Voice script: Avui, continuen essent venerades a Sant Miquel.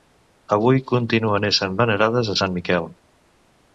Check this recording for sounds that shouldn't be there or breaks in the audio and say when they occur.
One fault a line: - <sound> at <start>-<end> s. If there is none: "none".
none